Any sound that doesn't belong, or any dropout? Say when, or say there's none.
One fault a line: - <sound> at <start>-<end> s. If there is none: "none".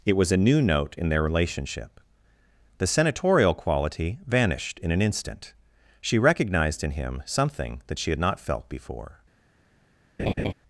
- laugh at 10.2-10.5 s